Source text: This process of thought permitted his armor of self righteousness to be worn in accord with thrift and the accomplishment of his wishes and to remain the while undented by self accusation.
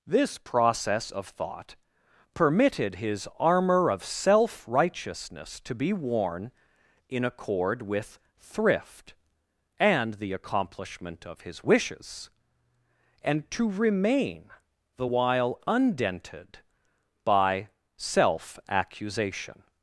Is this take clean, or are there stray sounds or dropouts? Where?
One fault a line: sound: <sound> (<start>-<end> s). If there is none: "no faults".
no faults